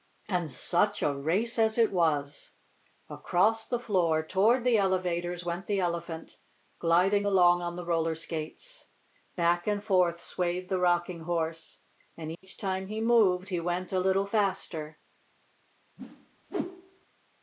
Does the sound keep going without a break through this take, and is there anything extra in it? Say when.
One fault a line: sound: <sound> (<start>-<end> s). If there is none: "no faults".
sound: dropout (12.3-12.4 s)
sound: whoosh (16.0-17.1 s)